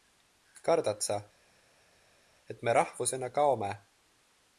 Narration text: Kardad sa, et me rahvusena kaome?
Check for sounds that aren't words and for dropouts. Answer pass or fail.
pass